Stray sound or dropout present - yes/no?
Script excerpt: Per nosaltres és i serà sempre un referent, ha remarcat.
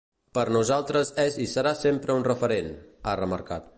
no